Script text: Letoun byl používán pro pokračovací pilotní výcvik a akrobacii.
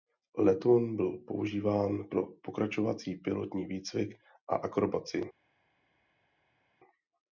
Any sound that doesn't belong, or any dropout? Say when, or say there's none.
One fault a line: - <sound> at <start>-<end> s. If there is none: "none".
none